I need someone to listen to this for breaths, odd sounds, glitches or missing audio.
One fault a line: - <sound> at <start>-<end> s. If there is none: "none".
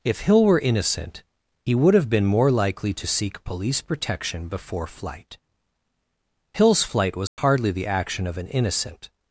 - dropout at 7.3-7.4 s